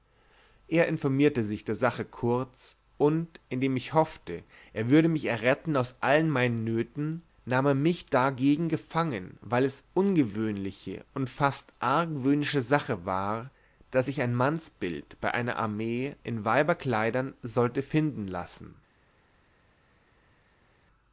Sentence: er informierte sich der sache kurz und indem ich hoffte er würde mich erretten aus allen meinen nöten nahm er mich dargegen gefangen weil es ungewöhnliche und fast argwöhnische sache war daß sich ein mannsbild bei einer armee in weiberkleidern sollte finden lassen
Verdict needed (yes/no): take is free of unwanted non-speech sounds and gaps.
yes